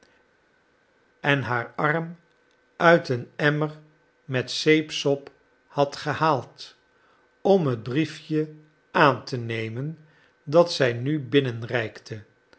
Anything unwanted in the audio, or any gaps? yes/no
no